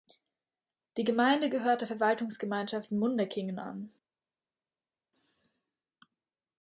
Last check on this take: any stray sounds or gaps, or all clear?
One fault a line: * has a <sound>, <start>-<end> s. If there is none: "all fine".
all fine